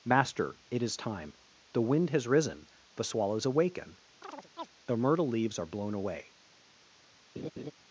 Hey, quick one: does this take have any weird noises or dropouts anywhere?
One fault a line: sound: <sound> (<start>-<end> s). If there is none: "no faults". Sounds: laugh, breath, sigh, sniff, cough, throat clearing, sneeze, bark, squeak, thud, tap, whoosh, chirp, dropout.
sound: chirp (4.2-4.7 s)
sound: laugh (7.4-7.7 s)